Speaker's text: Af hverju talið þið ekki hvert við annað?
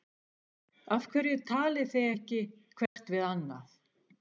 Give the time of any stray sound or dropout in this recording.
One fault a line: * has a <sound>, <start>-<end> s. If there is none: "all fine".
* has a dropout, 2.9-3.0 s